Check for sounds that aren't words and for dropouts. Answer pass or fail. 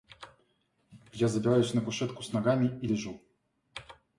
pass